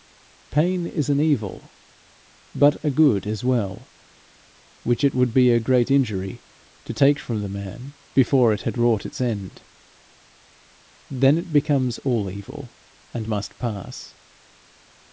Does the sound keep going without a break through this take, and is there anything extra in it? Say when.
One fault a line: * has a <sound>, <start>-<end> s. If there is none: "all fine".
all fine